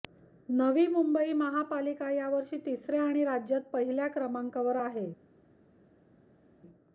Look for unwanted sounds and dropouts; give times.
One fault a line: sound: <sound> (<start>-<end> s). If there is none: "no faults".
no faults